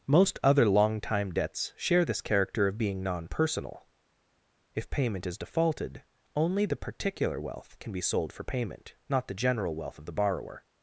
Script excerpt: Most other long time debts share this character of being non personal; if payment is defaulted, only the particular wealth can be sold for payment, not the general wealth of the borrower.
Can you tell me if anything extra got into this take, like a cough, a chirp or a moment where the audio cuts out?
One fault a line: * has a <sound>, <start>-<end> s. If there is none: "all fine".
all fine